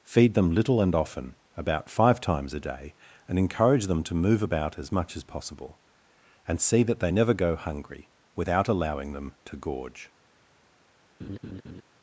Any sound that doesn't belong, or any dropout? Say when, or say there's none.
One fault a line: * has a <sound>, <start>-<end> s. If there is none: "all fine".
* has a laugh, 11.2-11.8 s